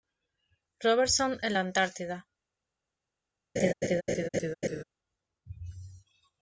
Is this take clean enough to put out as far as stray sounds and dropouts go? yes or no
no